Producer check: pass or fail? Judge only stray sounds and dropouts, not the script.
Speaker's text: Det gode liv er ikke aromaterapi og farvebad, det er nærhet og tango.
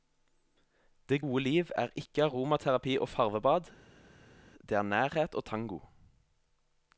pass